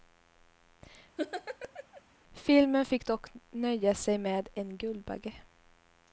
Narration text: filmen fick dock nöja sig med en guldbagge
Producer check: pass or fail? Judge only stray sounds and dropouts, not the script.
fail